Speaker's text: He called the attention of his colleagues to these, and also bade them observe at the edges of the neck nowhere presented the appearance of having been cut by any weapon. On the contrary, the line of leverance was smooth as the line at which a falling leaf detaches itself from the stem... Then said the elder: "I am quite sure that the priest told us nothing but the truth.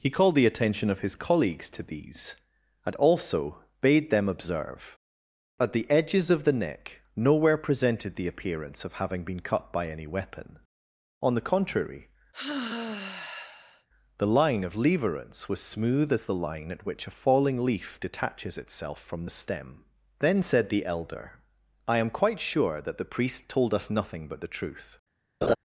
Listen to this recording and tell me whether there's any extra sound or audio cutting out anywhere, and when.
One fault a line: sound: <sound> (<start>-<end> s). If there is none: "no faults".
sound: sigh (12.3-13.9 s)
sound: laugh (25.4-25.6 s)